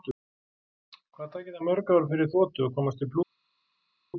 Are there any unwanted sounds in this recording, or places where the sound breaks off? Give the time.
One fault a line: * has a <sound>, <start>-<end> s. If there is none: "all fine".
all fine